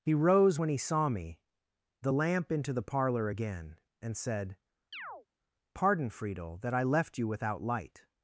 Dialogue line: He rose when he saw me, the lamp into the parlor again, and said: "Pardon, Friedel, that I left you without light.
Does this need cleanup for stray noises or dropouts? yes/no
yes